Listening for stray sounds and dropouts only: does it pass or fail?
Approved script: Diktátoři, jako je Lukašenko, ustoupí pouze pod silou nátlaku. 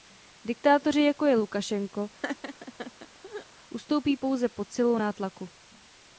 fail